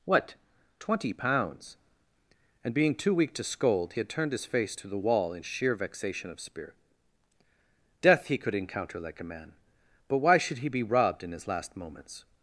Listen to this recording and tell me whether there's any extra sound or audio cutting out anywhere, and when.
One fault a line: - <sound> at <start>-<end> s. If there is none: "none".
none